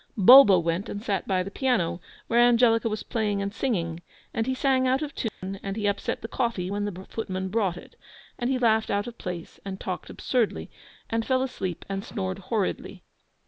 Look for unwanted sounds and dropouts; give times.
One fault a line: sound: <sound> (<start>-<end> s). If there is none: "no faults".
sound: dropout (5.3-5.4 s)